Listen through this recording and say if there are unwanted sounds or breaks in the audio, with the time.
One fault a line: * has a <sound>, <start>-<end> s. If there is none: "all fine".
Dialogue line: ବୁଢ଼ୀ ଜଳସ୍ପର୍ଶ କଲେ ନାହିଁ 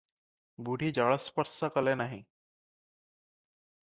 all fine